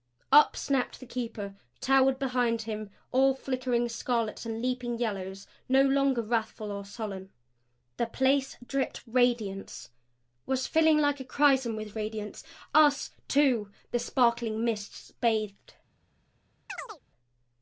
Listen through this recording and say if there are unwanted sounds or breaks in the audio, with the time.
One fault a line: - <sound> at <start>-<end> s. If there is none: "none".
- chirp at 16.7-17.0 s